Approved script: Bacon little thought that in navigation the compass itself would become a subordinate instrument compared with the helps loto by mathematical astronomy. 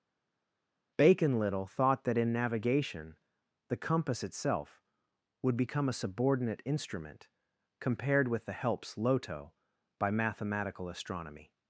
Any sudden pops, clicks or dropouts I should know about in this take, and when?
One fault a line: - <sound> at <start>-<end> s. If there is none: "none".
none